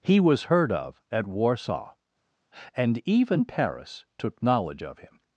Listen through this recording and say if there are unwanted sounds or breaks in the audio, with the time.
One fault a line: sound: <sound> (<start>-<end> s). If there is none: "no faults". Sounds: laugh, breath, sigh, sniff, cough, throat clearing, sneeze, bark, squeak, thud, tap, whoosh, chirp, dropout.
no faults